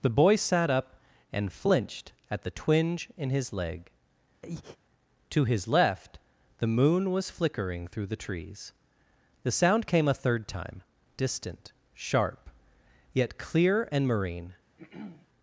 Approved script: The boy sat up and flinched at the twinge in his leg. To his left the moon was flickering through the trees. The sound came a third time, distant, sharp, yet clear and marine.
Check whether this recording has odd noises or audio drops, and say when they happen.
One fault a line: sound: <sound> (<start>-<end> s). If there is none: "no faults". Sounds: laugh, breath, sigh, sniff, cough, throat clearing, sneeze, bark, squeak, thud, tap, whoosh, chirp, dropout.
sound: breath (4.4-4.8 s)
sound: throat clearing (14.8-15.3 s)